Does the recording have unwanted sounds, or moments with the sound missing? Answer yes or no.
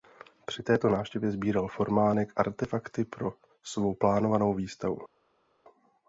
no